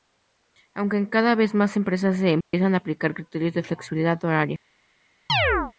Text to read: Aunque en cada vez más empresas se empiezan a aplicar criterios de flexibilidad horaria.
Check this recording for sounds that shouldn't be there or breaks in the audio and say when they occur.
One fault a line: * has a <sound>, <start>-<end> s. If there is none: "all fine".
* has a dropout, 2.4-2.5 s
* has a chirp, 5.3-5.7 s